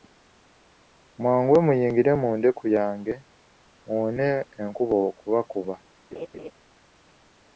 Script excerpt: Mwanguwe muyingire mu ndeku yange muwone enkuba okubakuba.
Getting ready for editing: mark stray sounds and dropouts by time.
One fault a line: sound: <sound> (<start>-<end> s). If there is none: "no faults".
sound: laugh (6.1-6.5 s)